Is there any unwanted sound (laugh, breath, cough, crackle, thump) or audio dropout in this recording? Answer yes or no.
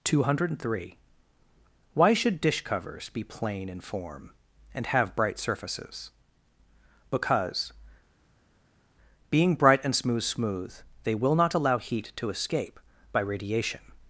no